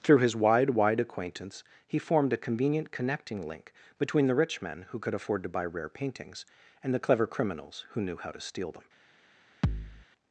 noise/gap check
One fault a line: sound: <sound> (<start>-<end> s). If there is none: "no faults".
sound: thud (9.6-10.1 s)